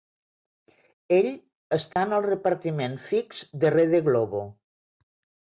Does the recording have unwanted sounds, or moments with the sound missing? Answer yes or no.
yes